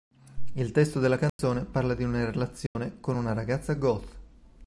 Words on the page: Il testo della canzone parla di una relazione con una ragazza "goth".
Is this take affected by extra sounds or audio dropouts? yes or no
yes